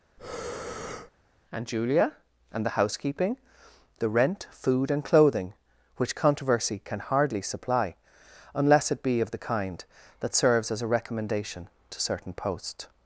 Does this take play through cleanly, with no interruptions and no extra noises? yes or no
no